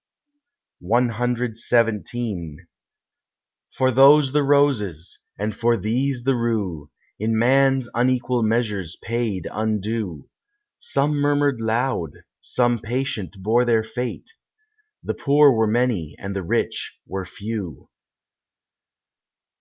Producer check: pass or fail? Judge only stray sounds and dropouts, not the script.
pass